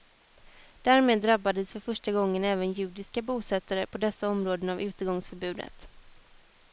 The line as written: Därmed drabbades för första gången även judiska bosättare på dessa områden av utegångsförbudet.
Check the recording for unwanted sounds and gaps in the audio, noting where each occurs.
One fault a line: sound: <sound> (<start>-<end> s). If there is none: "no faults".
no faults